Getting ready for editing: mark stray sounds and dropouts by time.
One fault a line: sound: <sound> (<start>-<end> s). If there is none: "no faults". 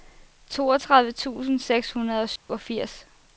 sound: dropout (2.4-2.5 s)